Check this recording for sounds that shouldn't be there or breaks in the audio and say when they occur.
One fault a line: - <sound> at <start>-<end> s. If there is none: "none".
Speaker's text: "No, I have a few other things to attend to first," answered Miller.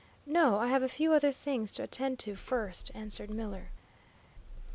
none